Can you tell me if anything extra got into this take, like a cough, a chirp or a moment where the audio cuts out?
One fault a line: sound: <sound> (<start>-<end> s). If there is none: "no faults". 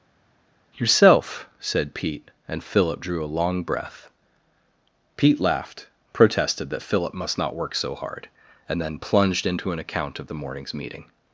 no faults